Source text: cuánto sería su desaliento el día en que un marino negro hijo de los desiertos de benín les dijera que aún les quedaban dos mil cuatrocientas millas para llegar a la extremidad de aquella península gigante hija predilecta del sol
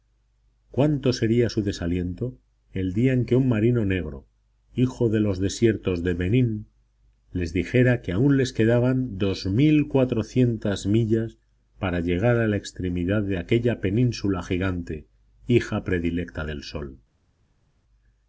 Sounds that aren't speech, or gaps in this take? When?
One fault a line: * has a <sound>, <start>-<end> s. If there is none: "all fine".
all fine